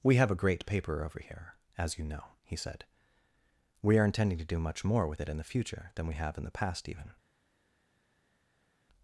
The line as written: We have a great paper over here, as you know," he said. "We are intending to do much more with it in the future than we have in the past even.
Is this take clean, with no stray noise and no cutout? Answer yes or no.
yes